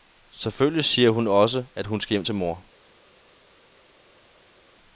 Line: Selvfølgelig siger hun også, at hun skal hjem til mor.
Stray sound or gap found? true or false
false